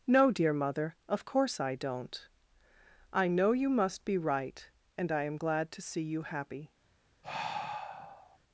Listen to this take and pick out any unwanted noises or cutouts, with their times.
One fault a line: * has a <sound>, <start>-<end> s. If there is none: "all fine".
* has a sigh, 7.2-8.4 s